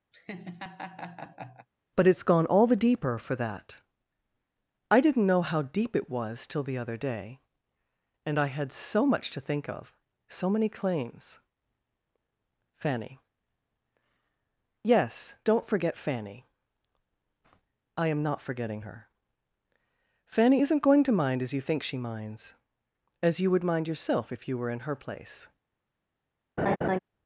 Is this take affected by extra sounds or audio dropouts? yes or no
yes